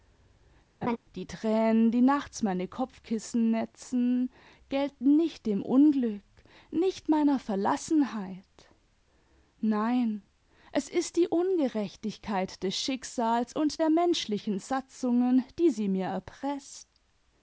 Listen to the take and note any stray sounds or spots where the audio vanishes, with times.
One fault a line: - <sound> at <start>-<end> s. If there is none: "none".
- laugh at 0.8-1.0 s